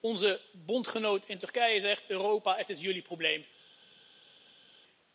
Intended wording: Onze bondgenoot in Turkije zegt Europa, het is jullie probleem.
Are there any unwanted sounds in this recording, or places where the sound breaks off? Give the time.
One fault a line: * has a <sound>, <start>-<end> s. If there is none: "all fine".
all fine